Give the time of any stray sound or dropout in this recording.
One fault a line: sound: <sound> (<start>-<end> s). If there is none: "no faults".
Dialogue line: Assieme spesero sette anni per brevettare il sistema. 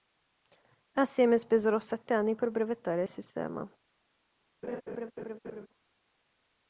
sound: laugh (4.6-5.7 s)